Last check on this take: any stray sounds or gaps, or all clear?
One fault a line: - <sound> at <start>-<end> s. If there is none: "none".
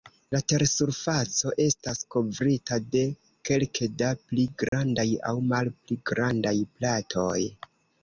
- dropout at 4.7-4.7 s